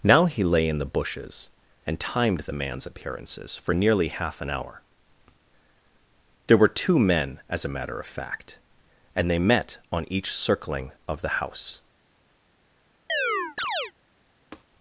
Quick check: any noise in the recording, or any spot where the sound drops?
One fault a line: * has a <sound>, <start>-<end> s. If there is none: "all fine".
* has a chirp, 13.1-13.9 s
* has a tap, 14.5-14.6 s